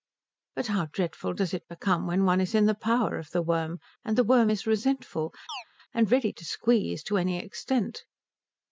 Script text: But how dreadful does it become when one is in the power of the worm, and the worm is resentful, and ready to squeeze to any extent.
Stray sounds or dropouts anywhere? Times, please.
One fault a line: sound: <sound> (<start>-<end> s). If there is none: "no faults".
sound: chirp (5.5-5.6 s)